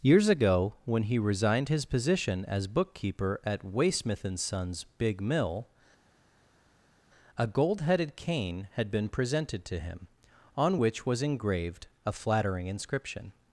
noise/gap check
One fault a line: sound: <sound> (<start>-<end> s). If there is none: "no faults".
no faults